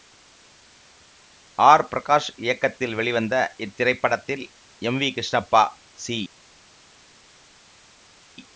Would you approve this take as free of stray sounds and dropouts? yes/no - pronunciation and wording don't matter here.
yes